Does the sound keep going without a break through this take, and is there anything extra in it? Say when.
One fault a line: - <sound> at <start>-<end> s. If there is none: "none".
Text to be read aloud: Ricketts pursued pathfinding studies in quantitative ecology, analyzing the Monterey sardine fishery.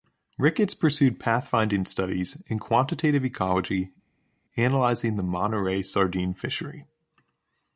none